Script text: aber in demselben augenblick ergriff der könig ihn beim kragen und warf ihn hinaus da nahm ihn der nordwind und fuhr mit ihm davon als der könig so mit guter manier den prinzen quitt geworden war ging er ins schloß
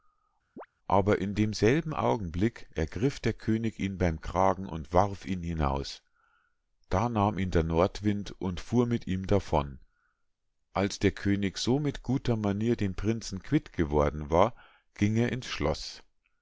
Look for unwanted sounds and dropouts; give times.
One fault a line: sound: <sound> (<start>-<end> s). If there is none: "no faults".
sound: chirp (0.6-0.7 s)